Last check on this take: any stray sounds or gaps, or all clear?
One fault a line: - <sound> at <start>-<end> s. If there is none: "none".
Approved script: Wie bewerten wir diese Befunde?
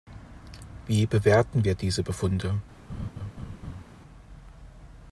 - laugh at 2.9-3.8 s